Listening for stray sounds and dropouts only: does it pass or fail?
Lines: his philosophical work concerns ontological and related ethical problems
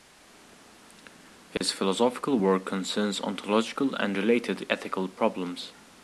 fail